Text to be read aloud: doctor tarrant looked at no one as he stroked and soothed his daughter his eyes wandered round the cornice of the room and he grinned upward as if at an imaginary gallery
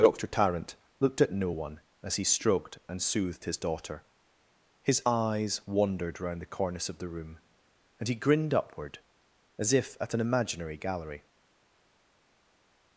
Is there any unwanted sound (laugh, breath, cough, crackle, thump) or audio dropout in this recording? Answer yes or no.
no